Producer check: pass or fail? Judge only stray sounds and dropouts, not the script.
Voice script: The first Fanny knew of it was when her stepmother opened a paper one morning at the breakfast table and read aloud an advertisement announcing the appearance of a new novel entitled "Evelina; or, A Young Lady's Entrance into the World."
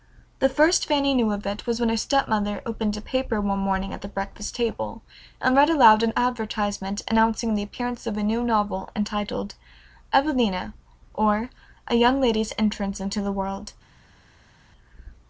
pass